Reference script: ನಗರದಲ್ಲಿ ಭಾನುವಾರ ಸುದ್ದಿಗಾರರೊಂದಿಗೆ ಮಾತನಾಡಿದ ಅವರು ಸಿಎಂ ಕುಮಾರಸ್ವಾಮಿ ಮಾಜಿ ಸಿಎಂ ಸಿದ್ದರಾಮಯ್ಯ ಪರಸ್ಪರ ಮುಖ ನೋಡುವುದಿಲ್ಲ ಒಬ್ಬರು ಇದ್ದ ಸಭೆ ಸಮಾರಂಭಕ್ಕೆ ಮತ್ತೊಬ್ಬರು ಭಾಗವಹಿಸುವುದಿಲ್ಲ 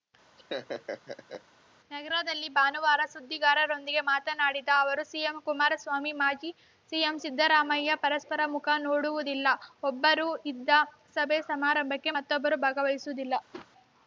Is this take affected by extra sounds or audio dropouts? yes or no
yes